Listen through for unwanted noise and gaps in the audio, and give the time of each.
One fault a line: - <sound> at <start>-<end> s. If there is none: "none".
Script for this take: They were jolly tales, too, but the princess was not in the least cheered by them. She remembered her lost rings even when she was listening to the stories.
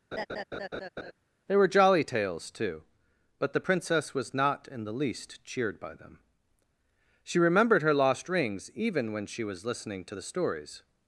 - laugh at 0.1-1.1 s